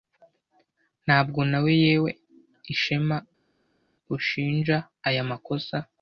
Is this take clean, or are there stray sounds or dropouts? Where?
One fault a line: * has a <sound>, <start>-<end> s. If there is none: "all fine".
all fine